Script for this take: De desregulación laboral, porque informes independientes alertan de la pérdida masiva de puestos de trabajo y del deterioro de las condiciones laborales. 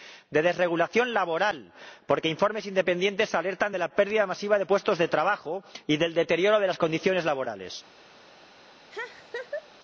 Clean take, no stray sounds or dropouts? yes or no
no